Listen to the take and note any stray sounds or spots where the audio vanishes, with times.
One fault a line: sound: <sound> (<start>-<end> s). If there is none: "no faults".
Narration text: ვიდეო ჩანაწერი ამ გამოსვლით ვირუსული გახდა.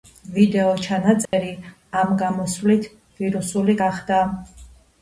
sound: dropout (1.3-1.3 s)